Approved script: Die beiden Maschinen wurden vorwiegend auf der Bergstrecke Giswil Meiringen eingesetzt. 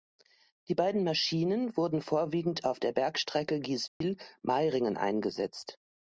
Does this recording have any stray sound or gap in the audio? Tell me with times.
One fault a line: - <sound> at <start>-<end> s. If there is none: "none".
- dropout at 3.9-4.0 s